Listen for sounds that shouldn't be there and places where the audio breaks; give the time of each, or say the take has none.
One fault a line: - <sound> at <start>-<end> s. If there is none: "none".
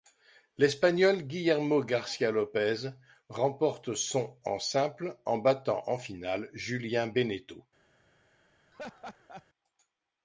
- laugh at 8.7-9.5 s